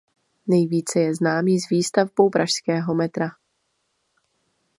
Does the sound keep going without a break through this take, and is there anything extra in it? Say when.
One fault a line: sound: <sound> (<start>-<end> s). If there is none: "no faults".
no faults